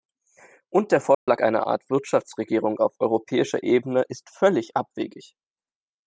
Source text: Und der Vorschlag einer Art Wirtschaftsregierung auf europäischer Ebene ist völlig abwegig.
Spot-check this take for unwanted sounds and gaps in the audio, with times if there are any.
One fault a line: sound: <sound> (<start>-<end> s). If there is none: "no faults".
sound: dropout (1.1-1.3 s)